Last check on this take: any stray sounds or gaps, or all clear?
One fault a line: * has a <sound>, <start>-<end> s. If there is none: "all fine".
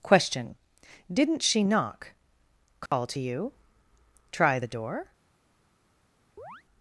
* has a dropout, 2.9-2.9 s
* has a chirp, 6.4-6.6 s